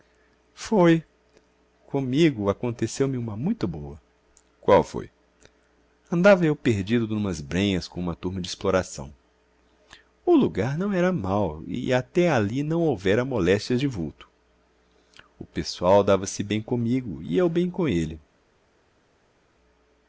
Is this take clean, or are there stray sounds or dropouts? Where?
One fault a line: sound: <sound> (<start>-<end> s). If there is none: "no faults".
no faults